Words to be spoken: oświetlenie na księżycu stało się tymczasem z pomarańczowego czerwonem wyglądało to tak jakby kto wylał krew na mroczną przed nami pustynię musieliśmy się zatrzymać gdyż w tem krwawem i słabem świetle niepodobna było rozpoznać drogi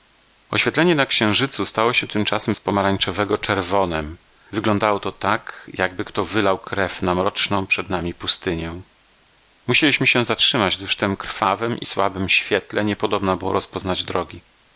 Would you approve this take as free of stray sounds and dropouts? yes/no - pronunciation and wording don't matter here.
yes